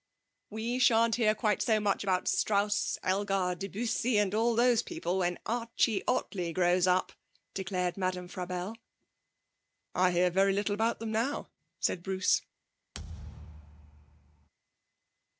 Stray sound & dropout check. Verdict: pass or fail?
fail